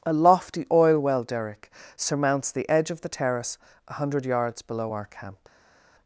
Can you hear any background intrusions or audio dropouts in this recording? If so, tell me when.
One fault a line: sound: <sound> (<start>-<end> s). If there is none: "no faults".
no faults